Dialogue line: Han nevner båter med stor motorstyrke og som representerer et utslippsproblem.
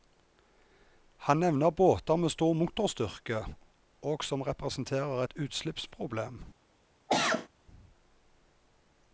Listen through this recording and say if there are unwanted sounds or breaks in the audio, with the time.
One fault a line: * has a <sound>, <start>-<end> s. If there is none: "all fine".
* has a cough, 7.1-7.5 s